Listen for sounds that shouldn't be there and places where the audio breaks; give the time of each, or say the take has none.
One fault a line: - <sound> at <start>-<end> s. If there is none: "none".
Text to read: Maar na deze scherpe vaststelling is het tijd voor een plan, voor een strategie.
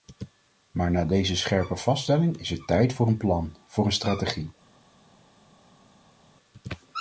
none